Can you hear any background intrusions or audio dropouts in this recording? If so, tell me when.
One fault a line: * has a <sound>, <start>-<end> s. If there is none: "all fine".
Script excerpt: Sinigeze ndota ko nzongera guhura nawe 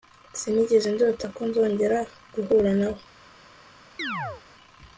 * has a chirp, 4.0-4.4 s